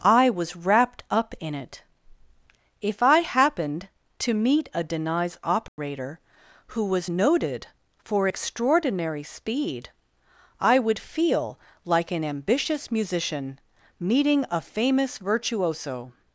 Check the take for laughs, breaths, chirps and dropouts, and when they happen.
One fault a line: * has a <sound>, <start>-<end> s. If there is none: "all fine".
* has a dropout, 5.7-5.8 s